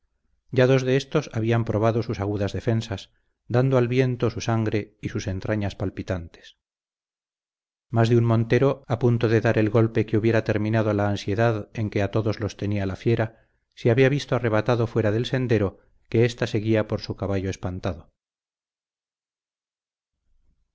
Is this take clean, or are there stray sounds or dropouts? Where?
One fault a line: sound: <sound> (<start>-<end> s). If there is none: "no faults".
no faults